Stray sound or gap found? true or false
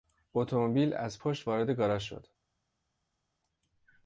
false